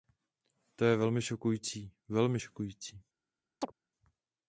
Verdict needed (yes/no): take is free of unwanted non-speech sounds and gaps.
no